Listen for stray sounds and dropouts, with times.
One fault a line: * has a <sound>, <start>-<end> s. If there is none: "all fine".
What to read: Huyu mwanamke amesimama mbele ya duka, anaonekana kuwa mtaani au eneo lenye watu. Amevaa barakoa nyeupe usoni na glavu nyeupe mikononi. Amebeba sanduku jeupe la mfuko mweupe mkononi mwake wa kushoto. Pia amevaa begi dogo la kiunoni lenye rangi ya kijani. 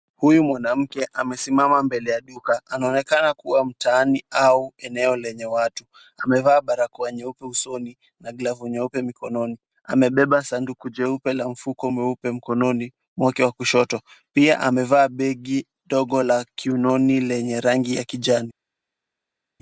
all fine